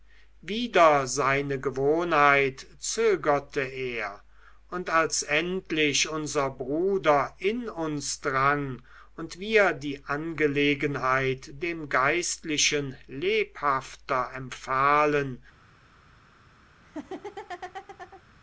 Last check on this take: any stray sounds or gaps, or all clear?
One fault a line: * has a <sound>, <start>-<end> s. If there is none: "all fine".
* has a laugh, 16.8-18.2 s